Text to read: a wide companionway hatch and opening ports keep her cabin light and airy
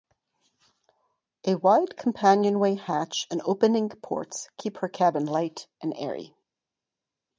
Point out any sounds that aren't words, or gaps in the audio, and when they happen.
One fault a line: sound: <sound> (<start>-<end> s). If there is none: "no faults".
no faults